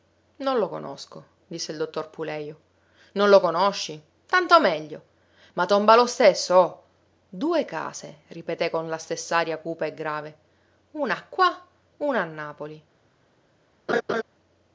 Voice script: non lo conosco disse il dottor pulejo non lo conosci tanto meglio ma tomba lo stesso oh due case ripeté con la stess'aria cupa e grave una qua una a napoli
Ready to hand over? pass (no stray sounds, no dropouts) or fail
fail